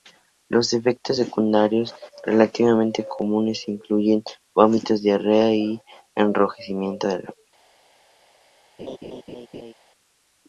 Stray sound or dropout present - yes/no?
yes